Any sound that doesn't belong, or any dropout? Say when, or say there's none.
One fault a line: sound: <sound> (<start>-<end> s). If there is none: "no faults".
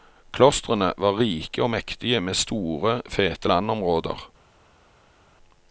no faults